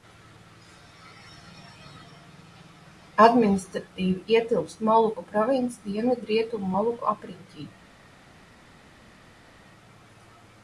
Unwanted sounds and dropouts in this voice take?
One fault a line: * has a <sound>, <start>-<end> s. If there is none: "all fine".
all fine